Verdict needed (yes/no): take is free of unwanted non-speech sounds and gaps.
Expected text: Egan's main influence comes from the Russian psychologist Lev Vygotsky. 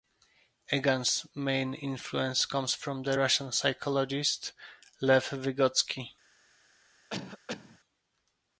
no